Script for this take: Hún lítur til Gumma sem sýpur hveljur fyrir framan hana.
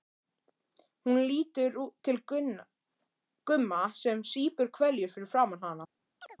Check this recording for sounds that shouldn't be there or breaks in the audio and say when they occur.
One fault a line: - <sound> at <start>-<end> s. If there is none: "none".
- chirp at 6.2-6.4 s